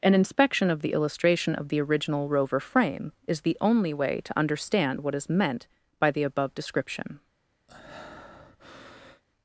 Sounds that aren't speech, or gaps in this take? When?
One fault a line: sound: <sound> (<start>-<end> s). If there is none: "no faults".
sound: breath (7.7-9.2 s)